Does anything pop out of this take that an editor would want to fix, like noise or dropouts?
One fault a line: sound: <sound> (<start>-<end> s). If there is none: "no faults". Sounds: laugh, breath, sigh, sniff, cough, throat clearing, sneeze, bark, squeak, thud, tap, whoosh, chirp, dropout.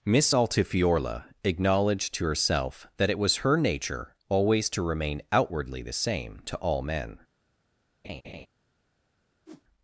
sound: laugh (8.0-8.5 s)
sound: whoosh (9.5-9.6 s)